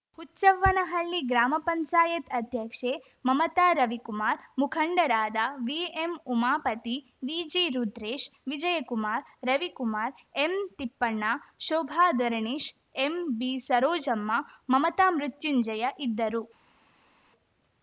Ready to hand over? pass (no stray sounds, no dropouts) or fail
pass